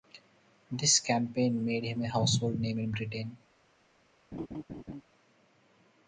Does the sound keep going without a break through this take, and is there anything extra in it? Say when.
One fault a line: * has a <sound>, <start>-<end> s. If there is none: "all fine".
* has a laugh, 4.3-5.0 s